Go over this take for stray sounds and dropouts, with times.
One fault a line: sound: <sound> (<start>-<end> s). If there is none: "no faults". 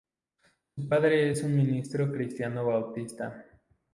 no faults